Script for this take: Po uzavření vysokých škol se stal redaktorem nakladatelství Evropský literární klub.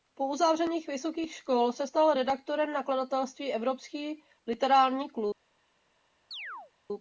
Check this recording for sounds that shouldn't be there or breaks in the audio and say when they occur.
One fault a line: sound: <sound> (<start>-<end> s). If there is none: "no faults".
sound: chirp (6.3-6.7 s)